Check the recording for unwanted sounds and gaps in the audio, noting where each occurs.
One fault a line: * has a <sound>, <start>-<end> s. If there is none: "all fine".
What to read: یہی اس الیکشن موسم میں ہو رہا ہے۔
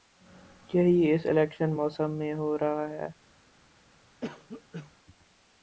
* has a cough, 4.2-4.9 s